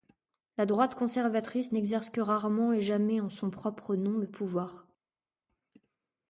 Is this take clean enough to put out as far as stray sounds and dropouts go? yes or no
yes